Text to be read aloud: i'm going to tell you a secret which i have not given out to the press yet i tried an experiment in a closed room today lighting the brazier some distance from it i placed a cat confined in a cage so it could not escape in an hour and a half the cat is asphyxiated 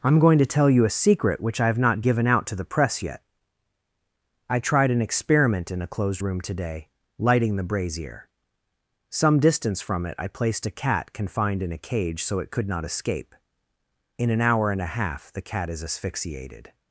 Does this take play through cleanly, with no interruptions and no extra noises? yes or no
yes